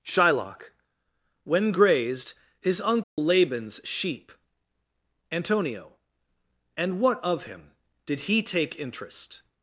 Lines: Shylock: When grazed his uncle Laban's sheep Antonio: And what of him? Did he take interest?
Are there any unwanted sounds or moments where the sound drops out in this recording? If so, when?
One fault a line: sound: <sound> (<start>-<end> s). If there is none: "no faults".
sound: dropout (3.0-3.2 s)